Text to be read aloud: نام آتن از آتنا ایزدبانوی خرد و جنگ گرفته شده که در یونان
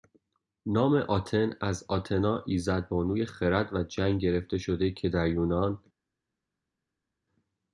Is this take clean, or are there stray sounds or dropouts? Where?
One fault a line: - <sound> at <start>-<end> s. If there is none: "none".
none